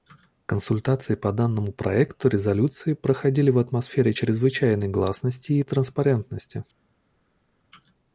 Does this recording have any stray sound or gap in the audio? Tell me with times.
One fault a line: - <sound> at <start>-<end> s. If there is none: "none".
none